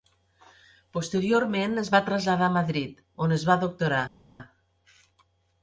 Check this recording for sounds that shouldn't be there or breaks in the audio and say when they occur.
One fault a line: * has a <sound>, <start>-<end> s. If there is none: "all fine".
all fine